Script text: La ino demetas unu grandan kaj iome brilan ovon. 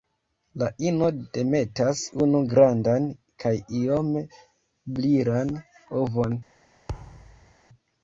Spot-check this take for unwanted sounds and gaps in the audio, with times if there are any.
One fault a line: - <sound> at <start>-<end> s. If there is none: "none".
- thud at 6.9-7.5 s